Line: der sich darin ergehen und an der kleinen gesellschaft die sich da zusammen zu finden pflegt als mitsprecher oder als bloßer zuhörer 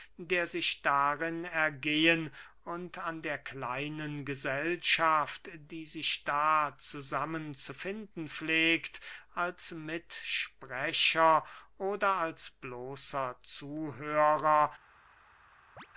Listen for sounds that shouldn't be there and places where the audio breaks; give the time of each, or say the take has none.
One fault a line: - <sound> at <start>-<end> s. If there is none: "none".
- chirp at 15.8-15.9 s